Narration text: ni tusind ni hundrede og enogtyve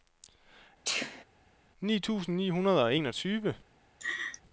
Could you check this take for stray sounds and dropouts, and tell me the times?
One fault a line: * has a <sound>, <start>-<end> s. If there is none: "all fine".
* has a sneeze, 0.8-1.2 s
* has a laugh, 4.0-4.4 s